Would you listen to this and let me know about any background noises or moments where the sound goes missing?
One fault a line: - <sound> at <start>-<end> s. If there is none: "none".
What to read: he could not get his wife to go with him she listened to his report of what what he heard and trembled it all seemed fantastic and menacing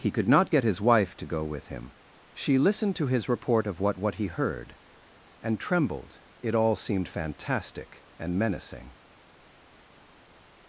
none